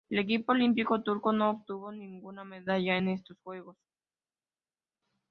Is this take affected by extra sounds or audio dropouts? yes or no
no